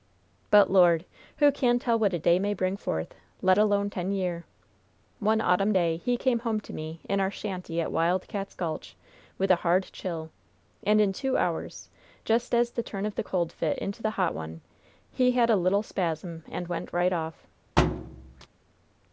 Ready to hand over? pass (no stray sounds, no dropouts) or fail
fail